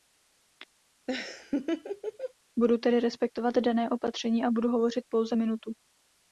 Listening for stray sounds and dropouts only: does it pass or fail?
fail